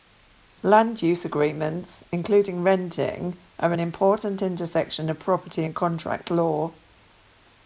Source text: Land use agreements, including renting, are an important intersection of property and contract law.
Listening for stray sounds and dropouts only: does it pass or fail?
pass